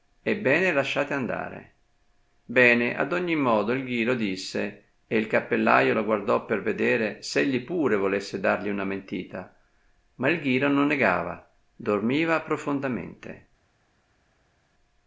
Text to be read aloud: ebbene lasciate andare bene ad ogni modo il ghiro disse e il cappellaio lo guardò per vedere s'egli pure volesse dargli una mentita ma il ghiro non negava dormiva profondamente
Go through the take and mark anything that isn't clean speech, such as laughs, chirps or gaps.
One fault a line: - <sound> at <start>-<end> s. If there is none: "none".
none